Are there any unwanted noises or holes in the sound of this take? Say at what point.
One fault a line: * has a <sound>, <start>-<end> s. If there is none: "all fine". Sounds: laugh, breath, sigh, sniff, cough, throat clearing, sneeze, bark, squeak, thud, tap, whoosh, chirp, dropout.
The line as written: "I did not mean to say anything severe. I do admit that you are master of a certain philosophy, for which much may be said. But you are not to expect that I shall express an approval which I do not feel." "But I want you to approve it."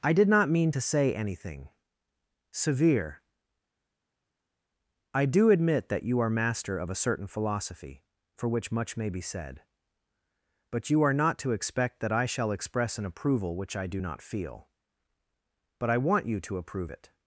all fine